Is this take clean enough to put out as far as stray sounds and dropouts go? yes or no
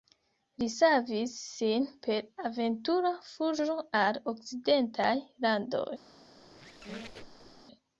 no